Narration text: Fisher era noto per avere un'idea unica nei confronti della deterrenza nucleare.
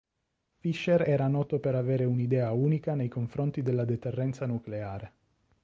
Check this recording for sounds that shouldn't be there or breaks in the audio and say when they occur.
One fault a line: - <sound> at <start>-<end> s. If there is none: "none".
none